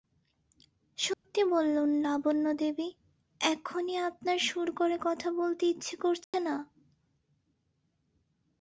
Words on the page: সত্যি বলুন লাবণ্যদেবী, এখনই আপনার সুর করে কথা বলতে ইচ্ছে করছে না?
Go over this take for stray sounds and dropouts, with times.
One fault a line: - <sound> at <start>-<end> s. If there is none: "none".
- dropout at 1.1-1.2 s
- dropout at 6.2-6.3 s